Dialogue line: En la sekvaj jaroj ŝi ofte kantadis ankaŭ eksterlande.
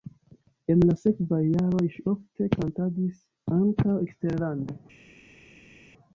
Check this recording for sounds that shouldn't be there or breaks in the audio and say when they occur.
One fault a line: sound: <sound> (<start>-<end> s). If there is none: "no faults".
no faults